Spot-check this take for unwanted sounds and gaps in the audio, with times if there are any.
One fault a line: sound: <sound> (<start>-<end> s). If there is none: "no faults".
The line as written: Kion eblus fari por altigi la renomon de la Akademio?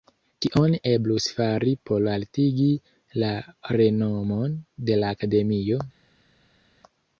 no faults